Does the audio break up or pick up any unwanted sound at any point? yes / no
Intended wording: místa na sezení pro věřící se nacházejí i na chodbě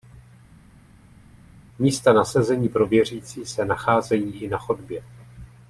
no